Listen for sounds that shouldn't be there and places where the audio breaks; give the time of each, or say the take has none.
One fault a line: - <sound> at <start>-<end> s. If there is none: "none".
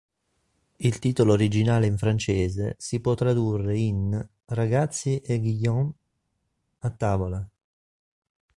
none